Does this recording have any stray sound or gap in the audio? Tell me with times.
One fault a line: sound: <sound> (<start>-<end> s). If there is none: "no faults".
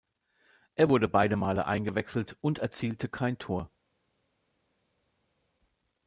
no faults